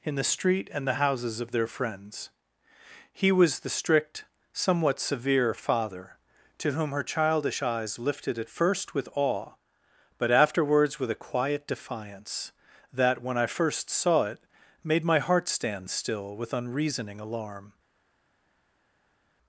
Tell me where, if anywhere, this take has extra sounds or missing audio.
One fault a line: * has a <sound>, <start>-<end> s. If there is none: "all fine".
all fine